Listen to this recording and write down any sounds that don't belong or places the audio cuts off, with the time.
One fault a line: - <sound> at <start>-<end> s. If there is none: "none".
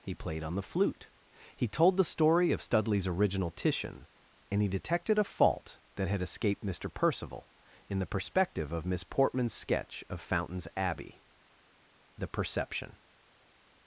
none